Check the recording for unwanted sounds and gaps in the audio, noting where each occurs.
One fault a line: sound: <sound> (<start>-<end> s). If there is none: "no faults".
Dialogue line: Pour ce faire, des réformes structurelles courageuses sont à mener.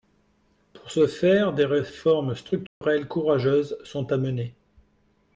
sound: dropout (2.7-2.8 s)